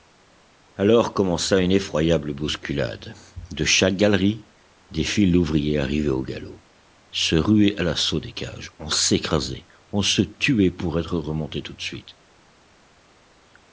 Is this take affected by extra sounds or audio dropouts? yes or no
no